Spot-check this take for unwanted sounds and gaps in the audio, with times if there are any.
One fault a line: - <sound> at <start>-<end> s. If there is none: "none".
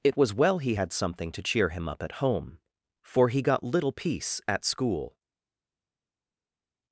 none